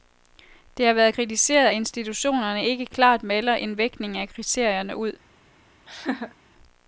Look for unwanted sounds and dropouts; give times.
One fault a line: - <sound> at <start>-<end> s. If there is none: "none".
- laugh at 5.9-6.4 s